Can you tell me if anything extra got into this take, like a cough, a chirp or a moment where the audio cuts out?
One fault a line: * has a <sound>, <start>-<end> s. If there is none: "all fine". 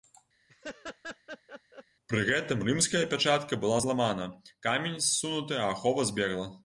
* has a laugh, 0.5-1.8 s